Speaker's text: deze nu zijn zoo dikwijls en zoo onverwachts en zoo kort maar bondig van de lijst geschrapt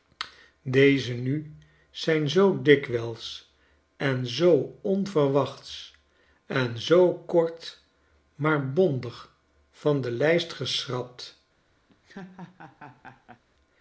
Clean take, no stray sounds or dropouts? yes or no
no